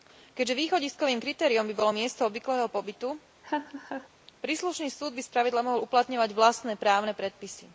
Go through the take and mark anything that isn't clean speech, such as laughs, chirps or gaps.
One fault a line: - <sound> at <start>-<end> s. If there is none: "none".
- laugh at 3.4-4.1 s